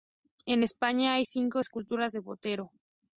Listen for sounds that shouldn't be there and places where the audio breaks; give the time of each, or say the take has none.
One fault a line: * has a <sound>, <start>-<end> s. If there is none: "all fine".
all fine